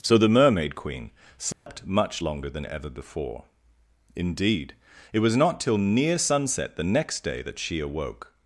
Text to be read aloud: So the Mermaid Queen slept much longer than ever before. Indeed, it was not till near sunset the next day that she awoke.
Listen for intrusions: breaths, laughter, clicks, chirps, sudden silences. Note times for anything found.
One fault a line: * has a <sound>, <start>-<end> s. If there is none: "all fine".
* has a dropout, 1.5-1.7 s